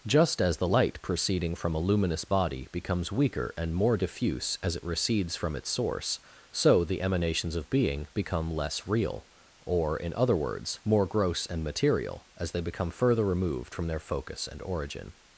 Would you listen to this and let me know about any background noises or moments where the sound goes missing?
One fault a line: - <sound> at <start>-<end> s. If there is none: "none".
none